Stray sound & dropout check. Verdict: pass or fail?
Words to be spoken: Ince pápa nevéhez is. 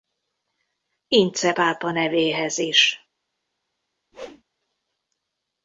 fail